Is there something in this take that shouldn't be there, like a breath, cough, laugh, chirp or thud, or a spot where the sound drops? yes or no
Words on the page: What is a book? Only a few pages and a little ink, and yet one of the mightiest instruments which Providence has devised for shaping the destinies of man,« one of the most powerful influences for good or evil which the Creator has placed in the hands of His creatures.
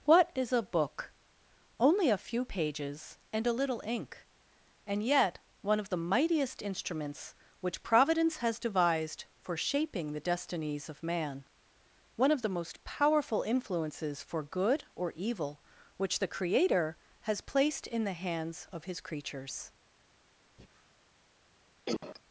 yes